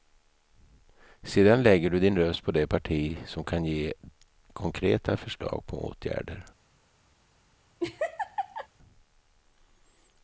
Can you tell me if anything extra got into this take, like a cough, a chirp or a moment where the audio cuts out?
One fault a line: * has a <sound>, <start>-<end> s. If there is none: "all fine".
* has a laugh, 7.8-8.7 s